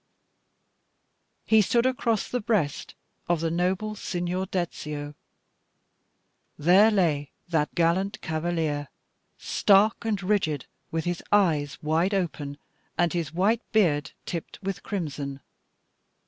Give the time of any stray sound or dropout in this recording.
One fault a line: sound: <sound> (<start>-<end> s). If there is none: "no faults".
no faults